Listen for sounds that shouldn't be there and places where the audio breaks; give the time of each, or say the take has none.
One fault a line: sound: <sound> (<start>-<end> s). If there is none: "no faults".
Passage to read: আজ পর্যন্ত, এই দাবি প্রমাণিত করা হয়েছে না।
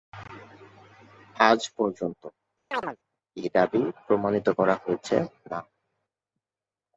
sound: chirp (2.7-3.0 s)